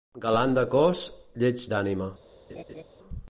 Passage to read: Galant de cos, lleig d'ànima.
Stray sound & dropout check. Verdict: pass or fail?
fail